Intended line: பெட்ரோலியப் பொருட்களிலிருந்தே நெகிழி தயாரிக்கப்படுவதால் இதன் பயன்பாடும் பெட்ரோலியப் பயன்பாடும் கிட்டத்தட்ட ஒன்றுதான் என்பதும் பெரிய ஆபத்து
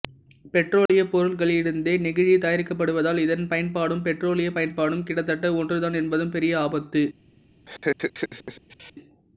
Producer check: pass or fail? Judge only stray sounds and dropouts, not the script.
fail